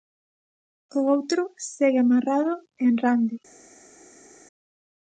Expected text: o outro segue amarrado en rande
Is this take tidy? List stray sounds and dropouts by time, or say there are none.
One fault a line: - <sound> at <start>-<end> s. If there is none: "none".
none